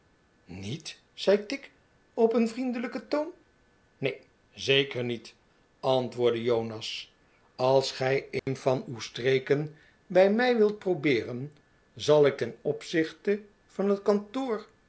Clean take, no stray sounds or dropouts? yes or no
no